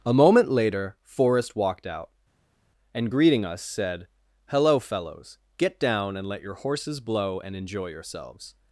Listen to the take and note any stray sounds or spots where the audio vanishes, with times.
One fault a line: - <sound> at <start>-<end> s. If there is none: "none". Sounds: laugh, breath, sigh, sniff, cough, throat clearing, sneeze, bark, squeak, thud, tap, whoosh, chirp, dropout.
none